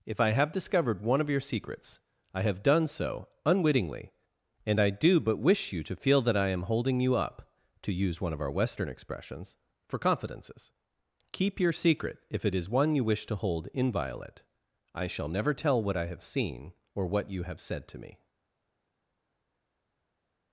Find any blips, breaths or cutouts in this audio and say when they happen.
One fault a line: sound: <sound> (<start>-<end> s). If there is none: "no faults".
no faults